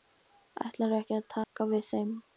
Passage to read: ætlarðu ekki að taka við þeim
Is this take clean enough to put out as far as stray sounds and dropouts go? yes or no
no